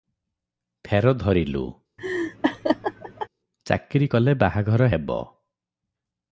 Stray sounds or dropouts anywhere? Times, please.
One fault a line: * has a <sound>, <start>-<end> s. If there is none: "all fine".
* has a laugh, 2.0-3.3 s